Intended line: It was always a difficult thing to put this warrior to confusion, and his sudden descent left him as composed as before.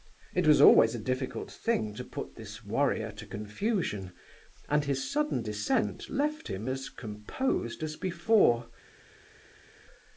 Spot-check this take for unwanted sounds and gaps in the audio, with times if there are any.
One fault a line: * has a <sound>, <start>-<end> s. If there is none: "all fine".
all fine